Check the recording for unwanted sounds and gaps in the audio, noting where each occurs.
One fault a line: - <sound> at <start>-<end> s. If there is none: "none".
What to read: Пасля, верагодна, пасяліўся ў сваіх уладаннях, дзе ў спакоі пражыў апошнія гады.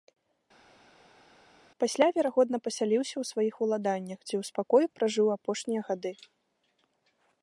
none